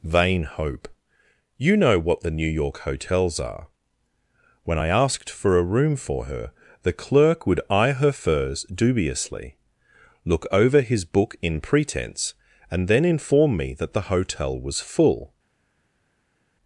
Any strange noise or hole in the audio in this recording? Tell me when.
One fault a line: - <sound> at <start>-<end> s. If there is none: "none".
none